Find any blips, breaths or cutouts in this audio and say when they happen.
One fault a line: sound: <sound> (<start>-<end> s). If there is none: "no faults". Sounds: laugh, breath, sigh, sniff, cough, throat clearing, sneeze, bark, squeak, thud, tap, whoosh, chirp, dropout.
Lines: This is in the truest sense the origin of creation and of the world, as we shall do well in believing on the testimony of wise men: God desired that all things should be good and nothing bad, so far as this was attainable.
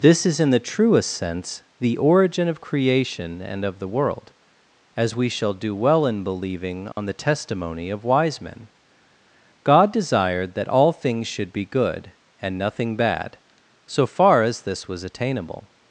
sound: dropout (6.9-7.0 s)